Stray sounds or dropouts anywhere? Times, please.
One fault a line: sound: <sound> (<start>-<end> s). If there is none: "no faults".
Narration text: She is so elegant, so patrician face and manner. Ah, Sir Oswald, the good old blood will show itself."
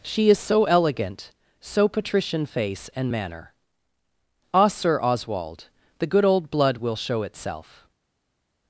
no faults